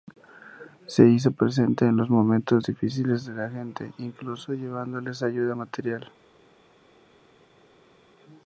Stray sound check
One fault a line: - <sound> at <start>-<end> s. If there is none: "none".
none